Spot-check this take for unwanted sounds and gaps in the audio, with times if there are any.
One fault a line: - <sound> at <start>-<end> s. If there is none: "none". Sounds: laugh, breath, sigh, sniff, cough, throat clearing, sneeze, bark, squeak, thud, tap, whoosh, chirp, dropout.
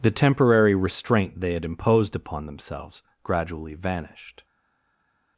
none